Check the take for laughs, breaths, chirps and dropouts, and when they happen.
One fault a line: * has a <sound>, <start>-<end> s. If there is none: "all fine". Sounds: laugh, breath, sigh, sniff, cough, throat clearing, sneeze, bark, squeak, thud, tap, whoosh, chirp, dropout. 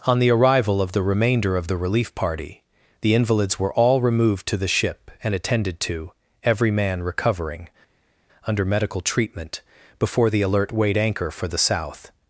all fine